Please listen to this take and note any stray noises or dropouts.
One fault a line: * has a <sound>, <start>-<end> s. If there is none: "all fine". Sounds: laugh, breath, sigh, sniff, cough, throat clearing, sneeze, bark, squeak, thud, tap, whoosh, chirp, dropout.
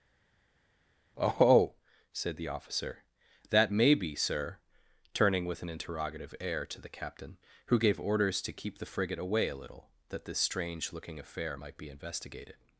all fine